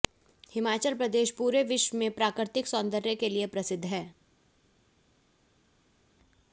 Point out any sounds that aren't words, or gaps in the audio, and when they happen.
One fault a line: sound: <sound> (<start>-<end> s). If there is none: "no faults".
no faults